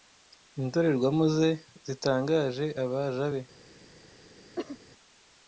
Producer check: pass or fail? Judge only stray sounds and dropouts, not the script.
fail